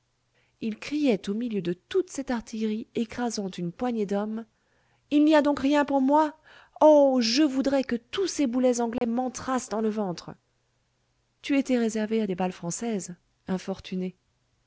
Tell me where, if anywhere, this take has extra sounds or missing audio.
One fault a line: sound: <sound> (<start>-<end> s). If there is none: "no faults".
sound: dropout (9.0-9.0 s)